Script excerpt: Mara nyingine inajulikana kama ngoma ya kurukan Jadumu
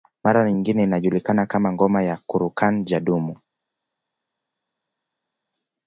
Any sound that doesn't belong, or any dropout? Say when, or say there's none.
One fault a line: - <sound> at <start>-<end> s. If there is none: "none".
none